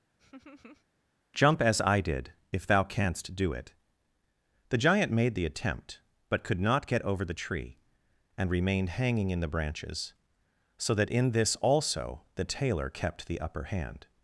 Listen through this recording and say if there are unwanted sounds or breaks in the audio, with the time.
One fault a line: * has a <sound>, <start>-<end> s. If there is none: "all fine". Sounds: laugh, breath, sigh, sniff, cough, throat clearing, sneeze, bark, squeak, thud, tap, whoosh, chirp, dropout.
* has a laugh, 0.2-0.9 s